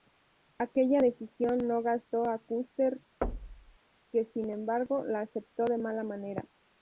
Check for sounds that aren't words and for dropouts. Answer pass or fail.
fail